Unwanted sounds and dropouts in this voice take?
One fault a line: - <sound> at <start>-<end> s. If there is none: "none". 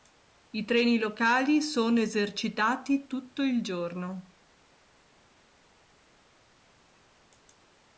none